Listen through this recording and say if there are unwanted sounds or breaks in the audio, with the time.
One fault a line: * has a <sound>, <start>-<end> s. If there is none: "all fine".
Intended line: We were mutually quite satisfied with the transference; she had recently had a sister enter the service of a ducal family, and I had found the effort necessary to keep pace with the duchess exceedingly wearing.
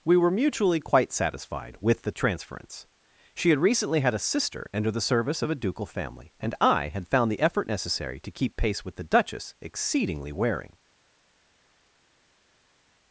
all fine